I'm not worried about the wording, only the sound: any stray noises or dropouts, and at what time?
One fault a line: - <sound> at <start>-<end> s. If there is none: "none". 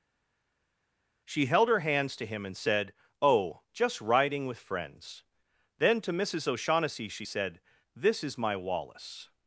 none